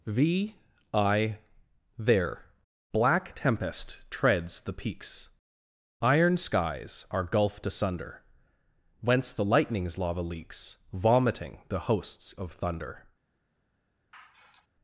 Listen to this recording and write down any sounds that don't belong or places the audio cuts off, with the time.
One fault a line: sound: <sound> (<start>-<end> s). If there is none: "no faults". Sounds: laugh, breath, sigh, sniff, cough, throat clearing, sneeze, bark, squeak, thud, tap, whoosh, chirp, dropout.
sound: sigh (14.1-14.7 s)